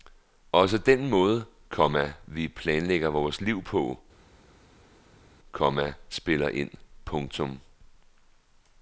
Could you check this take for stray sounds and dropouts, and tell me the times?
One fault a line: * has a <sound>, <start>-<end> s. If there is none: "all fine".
all fine